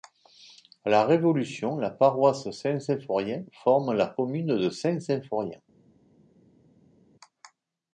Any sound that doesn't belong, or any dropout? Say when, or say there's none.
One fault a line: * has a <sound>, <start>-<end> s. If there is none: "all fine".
all fine